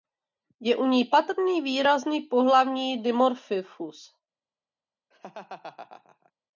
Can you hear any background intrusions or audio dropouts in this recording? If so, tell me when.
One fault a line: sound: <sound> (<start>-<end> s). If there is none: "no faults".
sound: laugh (5.1-6.3 s)